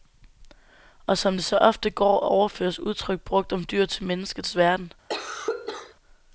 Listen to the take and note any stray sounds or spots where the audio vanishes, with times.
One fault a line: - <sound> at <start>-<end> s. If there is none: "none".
- cough at 5.1-5.9 s